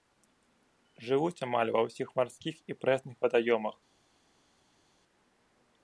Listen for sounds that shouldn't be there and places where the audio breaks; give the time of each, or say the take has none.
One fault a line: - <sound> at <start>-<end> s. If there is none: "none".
none